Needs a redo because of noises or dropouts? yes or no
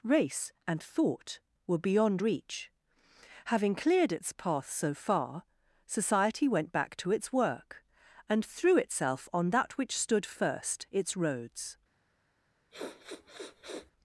yes